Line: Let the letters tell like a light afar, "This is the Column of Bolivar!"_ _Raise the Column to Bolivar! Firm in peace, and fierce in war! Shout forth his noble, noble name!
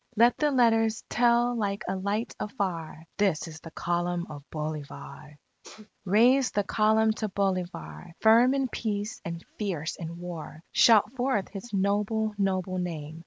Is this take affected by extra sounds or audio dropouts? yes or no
yes